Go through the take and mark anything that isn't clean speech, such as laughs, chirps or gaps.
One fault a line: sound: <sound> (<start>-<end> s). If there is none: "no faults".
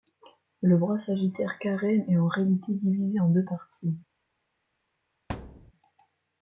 sound: thud (5.3-5.7 s)